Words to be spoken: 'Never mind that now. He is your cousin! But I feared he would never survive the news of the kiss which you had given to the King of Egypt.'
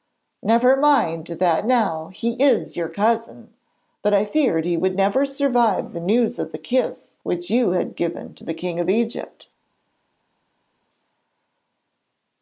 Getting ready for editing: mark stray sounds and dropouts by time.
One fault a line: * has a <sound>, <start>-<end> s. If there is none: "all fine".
all fine